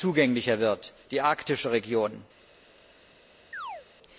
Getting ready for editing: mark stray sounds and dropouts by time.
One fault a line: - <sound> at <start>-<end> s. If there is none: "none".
- chirp at 3.5-3.9 s